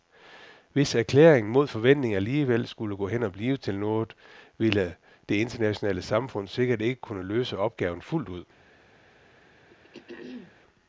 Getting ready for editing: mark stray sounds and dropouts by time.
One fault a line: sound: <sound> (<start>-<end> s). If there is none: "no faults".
sound: throat clearing (9.7-10.5 s)